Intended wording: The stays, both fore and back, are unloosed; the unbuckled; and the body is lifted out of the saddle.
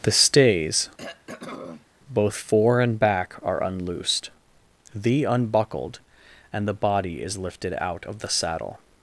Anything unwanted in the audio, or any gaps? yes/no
yes